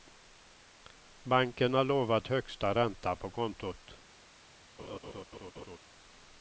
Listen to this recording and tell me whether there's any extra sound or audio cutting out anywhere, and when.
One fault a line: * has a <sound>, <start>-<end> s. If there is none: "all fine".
* has a laugh, 4.8-5.8 s